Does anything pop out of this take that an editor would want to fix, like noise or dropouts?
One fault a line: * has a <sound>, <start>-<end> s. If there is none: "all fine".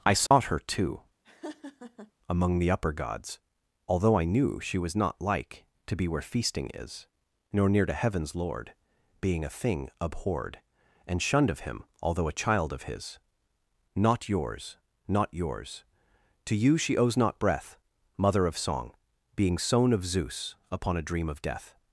* has a dropout, 0.3-0.3 s
* has a laugh, 1.2-2.1 s